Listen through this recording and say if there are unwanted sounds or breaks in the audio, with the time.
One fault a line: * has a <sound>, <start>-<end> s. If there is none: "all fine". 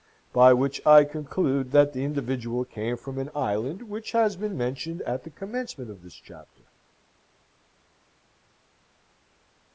all fine